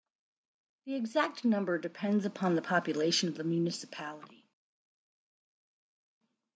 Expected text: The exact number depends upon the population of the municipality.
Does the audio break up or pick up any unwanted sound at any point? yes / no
no